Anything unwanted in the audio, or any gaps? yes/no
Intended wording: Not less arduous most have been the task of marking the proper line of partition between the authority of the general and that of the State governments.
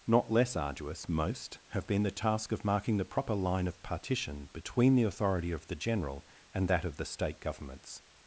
no